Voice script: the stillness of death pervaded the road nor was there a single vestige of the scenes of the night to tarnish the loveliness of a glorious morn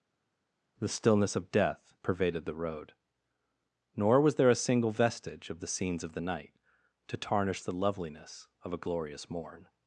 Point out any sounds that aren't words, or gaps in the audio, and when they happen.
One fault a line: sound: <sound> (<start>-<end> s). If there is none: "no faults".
no faults